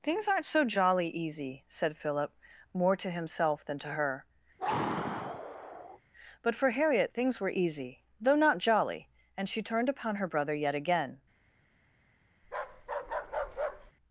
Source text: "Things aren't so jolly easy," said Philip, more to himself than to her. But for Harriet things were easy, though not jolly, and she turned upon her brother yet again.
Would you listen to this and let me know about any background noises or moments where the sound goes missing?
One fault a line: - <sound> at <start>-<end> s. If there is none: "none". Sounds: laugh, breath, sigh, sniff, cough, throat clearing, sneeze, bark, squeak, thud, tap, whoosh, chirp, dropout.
- sigh at 4.6-6.0 s
- bark at 12.4-13.9 s